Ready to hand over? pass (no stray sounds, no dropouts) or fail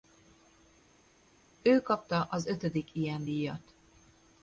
pass